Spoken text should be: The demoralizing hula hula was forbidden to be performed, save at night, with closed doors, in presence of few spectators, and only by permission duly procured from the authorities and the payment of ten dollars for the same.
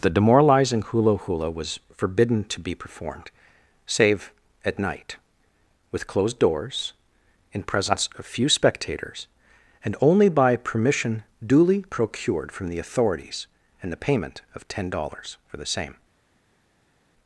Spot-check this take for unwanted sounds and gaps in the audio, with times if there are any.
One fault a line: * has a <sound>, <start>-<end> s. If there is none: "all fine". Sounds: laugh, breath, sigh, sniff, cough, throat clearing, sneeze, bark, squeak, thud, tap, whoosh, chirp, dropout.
all fine